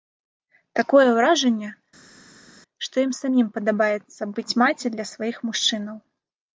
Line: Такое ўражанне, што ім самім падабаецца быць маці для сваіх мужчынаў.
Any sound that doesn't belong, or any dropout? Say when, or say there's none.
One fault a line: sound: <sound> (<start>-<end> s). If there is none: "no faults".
no faults